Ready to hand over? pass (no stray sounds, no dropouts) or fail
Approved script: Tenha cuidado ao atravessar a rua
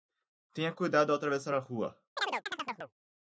fail